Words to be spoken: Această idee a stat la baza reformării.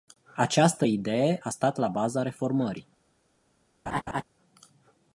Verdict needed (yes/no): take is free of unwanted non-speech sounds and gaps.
no